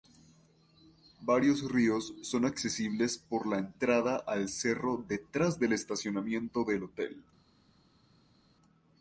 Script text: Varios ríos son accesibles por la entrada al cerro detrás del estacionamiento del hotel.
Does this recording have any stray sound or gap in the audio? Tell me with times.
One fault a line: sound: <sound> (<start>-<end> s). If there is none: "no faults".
no faults